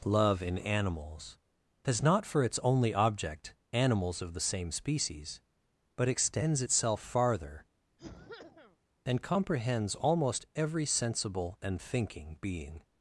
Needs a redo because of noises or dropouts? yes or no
yes